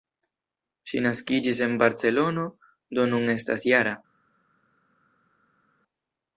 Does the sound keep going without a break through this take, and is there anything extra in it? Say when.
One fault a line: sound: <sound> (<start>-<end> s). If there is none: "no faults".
no faults